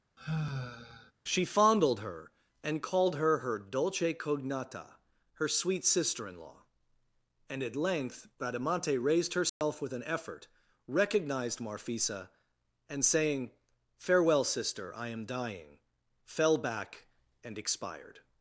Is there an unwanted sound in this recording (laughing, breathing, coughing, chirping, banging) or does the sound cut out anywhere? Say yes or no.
yes